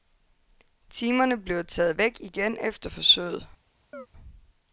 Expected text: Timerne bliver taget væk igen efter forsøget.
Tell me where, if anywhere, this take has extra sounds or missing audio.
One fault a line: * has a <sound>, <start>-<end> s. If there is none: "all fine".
* has a chirp, 3.9-4.1 s